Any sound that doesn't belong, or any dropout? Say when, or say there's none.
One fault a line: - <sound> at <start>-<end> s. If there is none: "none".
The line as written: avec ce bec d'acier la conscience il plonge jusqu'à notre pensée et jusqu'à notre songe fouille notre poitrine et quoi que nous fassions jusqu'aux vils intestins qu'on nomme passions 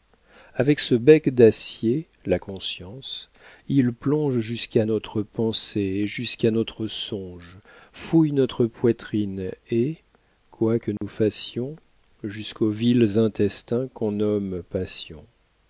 - dropout at 11.0-11.0 s